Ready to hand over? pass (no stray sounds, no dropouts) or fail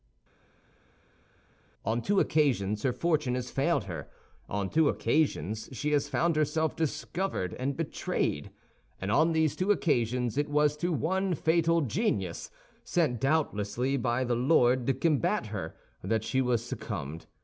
pass